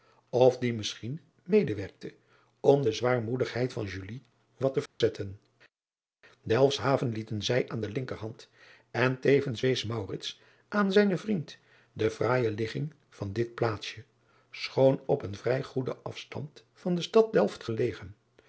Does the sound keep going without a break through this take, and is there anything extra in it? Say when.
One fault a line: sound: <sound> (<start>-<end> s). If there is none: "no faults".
sound: dropout (4.9-5.0 s)